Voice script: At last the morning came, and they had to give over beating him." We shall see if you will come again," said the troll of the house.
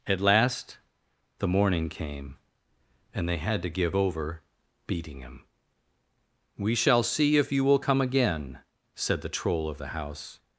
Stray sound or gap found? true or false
false